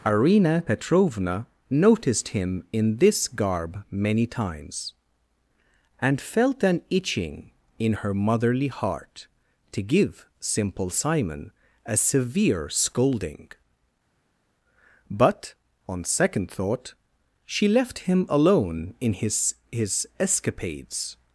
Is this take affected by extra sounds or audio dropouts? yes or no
no